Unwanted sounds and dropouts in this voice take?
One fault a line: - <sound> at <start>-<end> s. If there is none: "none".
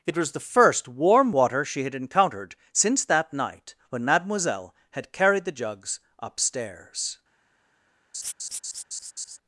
- laugh at 8.1-9.4 s